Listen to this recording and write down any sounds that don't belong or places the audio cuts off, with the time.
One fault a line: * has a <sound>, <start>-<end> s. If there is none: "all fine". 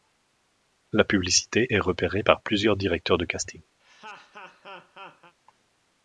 * has a laugh, 3.8-5.3 s